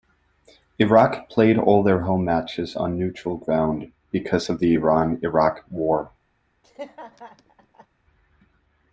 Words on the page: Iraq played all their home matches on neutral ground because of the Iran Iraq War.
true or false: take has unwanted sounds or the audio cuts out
true